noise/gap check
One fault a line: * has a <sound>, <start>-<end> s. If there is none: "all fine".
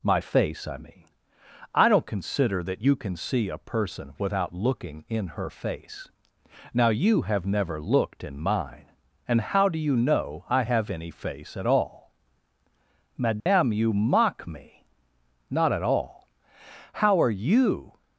* has a dropout, 13.4-13.5 s